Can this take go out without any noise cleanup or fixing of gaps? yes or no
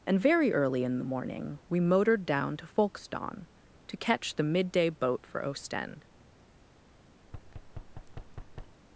no